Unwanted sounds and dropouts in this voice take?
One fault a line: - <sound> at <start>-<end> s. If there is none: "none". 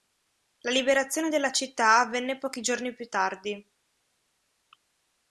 none